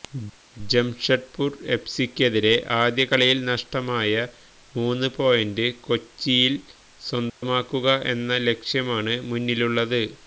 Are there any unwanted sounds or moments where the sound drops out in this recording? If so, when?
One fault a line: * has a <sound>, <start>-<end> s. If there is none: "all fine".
* has a dropout, 7.3-7.4 s